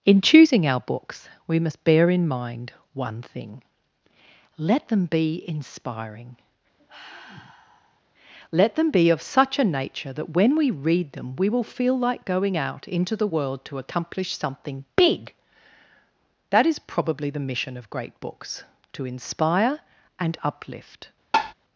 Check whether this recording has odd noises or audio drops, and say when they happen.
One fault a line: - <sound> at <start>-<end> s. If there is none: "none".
- sigh at 6.8-8.0 s
- tap at 21.3-21.5 s